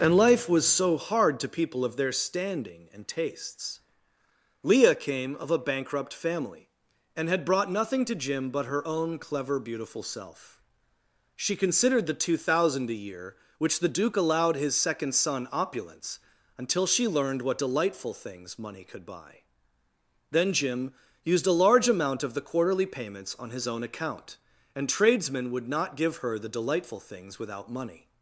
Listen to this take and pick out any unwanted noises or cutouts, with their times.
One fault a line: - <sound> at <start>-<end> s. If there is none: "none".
none